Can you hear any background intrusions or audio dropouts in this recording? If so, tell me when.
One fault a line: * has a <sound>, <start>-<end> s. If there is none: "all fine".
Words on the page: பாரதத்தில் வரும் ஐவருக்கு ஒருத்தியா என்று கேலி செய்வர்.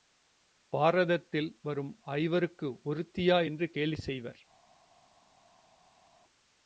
all fine